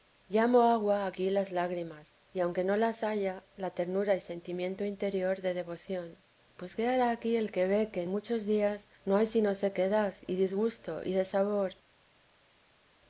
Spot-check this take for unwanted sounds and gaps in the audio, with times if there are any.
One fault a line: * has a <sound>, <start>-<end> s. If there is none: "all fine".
all fine